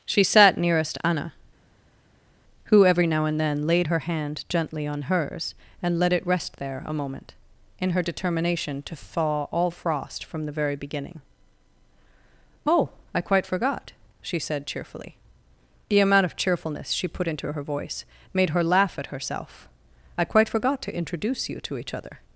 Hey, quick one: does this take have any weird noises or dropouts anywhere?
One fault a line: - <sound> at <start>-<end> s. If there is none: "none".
none